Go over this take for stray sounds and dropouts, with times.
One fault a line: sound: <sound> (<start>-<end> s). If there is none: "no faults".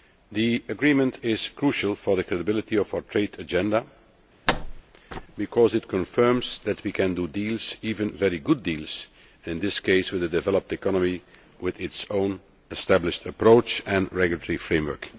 sound: thud (4.5-4.8 s)